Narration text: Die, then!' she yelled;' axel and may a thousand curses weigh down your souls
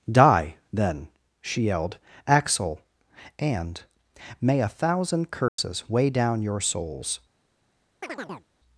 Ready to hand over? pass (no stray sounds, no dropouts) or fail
fail